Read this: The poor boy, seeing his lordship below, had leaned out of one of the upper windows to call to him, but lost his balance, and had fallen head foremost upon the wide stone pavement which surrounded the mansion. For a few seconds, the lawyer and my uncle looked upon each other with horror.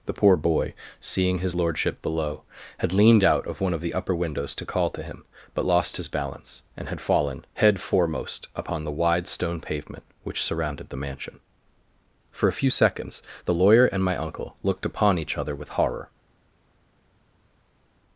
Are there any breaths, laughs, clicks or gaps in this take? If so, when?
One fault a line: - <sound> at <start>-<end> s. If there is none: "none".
none